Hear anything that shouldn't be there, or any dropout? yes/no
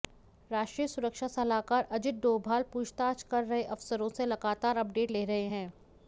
no